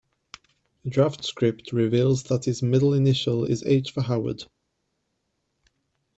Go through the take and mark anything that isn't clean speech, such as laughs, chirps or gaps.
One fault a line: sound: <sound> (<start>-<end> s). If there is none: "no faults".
no faults